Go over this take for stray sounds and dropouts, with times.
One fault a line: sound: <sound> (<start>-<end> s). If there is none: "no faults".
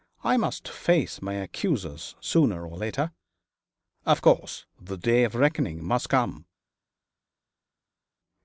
no faults